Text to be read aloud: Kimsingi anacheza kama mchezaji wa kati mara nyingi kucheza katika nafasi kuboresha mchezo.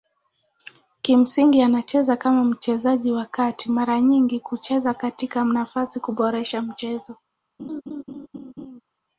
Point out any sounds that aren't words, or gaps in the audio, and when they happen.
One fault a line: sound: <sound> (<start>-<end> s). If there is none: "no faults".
sound: laugh (7.6-8.8 s)